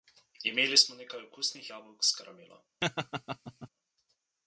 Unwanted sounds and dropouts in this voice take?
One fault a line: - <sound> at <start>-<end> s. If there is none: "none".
- laugh at 2.8-3.7 s